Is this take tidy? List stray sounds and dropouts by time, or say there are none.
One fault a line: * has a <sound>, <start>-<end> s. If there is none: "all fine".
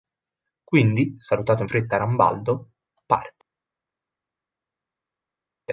all fine